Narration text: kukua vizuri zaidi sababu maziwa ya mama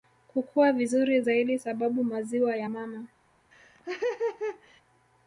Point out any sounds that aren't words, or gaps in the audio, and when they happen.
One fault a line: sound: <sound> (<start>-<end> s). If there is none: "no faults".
sound: laugh (3.5-4.8 s)